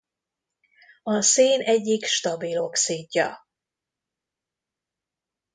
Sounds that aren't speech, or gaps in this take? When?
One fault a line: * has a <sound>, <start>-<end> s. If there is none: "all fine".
all fine